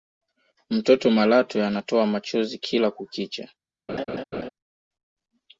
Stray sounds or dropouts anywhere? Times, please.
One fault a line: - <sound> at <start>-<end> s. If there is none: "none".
- laugh at 3.9-4.5 s